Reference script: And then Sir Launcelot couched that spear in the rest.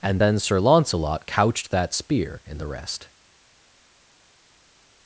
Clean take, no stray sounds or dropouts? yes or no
yes